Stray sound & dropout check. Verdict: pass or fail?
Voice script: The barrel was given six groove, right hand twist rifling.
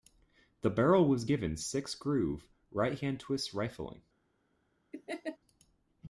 fail